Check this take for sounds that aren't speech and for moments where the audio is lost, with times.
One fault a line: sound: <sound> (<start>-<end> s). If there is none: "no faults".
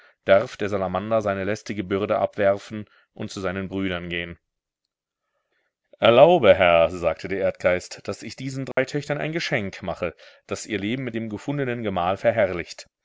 sound: dropout (8.7-8.8 s)